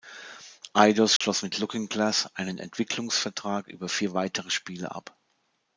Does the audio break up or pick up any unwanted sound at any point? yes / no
yes